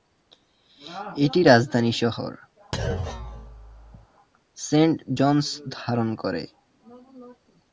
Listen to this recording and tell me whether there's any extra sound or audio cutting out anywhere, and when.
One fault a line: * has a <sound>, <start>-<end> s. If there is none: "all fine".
* has a thud, 2.7-4.1 s